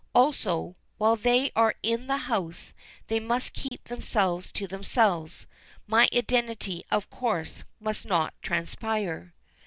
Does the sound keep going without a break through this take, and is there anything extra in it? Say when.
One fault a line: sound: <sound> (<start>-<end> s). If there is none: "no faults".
sound: dropout (3.7-3.7 s)